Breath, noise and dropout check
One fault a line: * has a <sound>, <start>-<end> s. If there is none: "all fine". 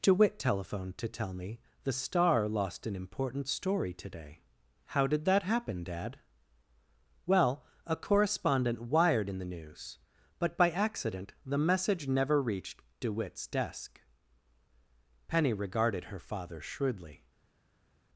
all fine